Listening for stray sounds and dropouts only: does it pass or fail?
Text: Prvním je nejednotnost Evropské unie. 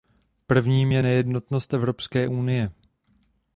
pass